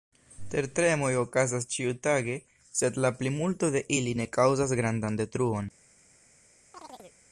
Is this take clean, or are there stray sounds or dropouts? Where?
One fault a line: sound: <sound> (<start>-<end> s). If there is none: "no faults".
sound: chirp (6.7-7.2 s)